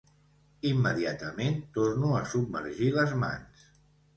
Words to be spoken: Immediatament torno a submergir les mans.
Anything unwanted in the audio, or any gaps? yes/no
no